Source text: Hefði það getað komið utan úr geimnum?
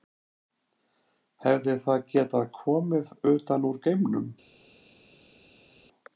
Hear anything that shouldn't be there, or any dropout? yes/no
no